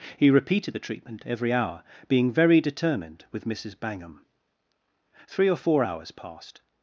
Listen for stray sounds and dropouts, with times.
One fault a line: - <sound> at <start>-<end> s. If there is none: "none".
none